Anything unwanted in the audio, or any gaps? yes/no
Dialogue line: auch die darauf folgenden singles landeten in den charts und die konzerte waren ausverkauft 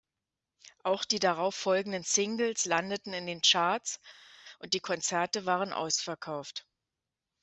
no